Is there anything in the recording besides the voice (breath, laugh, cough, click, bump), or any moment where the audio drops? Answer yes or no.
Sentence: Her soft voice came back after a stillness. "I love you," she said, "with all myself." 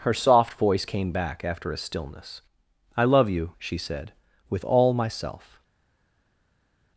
no